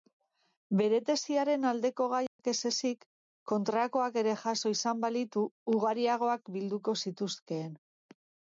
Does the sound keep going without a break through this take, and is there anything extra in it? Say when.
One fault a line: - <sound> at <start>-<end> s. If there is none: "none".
- dropout at 2.3-2.4 s